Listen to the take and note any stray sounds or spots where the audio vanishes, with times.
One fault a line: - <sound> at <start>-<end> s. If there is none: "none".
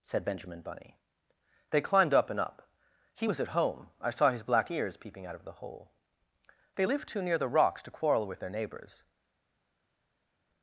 none